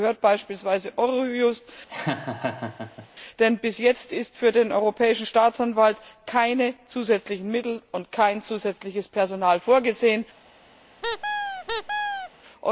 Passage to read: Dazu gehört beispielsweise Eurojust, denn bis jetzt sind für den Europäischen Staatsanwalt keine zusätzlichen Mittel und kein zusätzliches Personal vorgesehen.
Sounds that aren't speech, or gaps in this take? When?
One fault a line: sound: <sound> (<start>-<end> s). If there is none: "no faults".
sound: laugh (1.9-3.1 s)
sound: squeak (11.0-12.3 s)